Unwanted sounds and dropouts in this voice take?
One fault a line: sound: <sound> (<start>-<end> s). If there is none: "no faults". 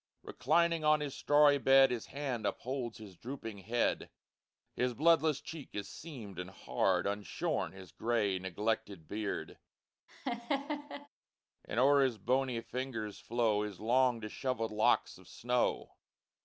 sound: laugh (10.1-11.1 s)